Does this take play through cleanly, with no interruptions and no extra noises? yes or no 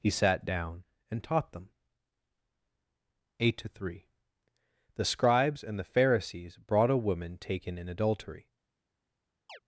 no